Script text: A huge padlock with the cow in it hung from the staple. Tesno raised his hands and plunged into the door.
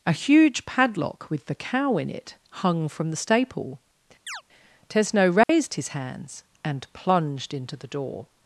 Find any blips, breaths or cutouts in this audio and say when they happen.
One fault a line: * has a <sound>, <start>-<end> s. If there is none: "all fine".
* has a chirp, 4.3-4.4 s
* has a dropout, 5.4-5.5 s